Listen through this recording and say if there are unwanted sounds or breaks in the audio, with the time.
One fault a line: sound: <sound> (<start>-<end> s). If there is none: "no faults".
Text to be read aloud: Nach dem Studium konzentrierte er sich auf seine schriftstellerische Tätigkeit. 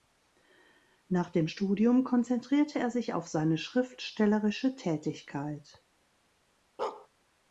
sound: bark (6.8-7.1 s)